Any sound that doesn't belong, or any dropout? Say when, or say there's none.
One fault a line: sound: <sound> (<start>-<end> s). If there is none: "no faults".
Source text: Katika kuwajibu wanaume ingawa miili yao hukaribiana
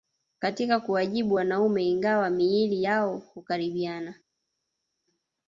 no faults